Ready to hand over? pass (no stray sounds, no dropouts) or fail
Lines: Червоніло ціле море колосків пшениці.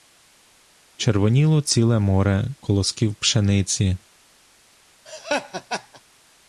fail